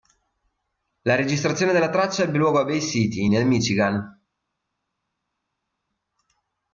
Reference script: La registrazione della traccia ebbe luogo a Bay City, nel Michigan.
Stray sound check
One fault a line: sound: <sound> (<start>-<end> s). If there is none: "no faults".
no faults